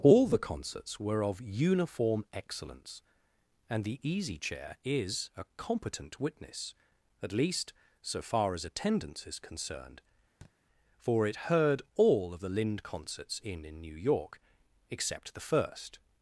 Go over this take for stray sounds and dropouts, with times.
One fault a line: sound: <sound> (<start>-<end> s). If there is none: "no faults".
sound: thud (10.4-10.5 s)